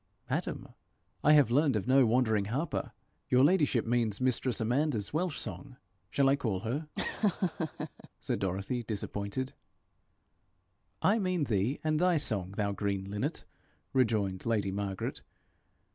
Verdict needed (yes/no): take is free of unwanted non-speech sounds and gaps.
no